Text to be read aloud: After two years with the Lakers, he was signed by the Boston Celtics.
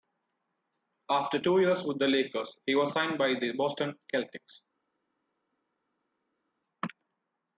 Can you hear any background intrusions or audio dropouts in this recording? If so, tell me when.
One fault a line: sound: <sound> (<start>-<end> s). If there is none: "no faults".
no faults